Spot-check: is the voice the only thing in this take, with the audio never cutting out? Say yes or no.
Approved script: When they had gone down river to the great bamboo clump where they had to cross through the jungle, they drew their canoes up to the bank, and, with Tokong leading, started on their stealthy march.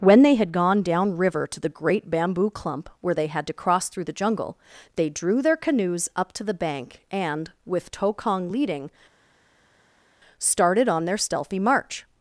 yes